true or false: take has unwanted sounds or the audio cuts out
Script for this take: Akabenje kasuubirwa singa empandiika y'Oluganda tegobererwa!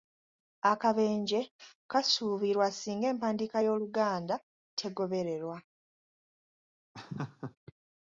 true